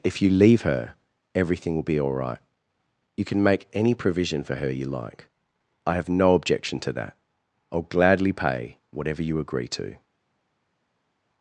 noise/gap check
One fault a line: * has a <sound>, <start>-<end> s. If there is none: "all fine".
all fine